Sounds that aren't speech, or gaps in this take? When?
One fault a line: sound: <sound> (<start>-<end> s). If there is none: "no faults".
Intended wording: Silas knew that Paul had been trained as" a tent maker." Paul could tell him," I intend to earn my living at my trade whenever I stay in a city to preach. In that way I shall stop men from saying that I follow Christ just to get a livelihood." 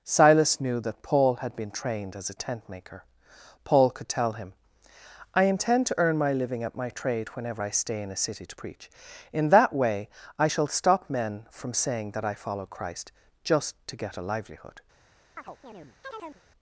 sound: chirp (15.4-16.4 s)